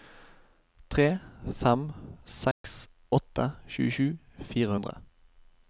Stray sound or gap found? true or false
true